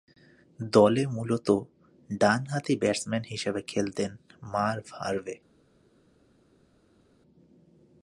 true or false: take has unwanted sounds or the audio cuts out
false